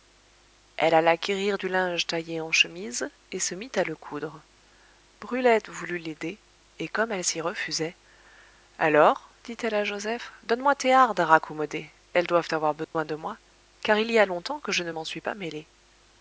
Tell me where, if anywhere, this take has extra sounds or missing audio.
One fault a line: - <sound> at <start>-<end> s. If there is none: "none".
- dropout at 12.8-12.9 s